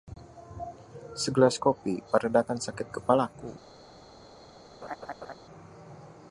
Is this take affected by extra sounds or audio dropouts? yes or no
yes